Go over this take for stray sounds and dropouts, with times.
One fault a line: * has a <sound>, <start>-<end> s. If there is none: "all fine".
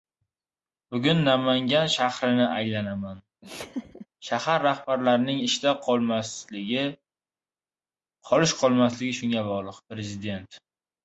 * has a laugh, 3.4-4.1 s